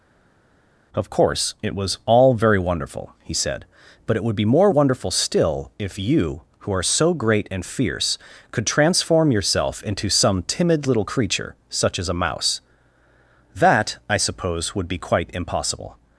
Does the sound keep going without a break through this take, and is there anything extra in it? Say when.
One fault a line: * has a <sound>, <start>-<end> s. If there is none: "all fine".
all fine